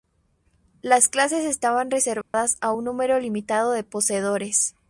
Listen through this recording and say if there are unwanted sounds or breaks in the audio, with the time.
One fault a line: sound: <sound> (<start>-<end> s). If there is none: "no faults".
sound: dropout (2.2-2.3 s)